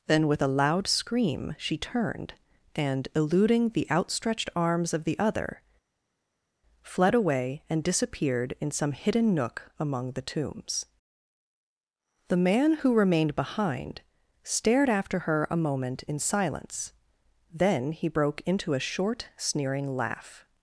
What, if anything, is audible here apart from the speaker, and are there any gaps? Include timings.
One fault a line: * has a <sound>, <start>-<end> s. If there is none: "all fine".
all fine